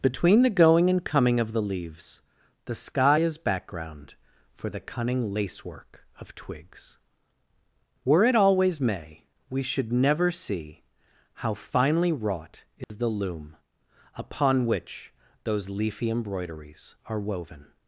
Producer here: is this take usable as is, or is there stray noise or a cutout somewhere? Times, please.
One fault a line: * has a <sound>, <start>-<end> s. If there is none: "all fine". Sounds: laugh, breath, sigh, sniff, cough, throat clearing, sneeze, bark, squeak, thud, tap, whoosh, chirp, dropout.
* has a dropout, 12.8-12.9 s